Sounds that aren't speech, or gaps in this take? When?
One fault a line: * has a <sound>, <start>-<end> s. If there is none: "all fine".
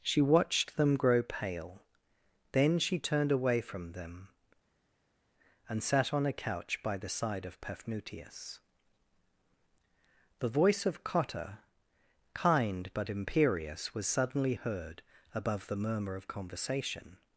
all fine